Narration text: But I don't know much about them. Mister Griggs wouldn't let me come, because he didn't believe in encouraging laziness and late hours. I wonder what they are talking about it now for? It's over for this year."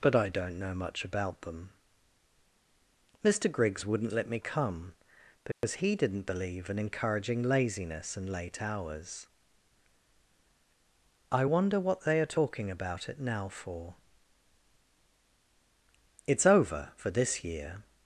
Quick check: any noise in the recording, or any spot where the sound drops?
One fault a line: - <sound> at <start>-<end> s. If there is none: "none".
- dropout at 5.5-5.6 s